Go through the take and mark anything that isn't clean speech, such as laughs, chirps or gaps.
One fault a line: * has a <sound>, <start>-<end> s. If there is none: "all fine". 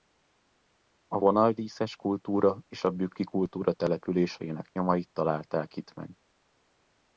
all fine